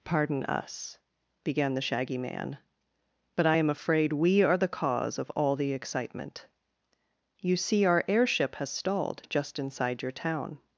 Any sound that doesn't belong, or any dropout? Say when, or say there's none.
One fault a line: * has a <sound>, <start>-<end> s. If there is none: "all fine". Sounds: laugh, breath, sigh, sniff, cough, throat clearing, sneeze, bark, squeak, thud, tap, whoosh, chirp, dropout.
all fine